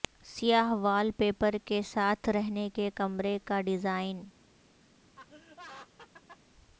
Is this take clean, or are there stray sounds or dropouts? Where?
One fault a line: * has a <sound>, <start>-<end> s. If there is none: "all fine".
* has a laugh, 5.2-6.4 s